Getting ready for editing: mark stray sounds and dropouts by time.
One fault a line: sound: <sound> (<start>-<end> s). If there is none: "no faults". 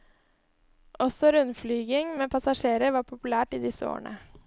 no faults